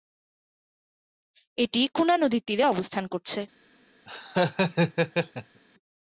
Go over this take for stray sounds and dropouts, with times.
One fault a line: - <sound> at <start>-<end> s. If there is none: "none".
- laugh at 4.1-5.6 s